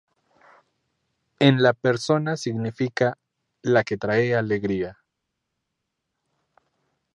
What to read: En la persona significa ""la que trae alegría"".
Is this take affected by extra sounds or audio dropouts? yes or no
no